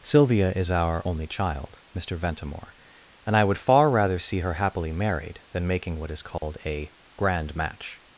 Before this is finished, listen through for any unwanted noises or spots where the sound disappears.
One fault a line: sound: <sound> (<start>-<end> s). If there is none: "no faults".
sound: dropout (6.4-6.4 s)